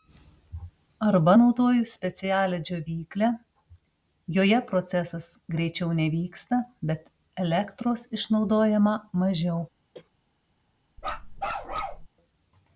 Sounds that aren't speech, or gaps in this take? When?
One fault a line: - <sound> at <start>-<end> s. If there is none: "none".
- cough at 9.9-10.1 s
- bark at 11.0-12.1 s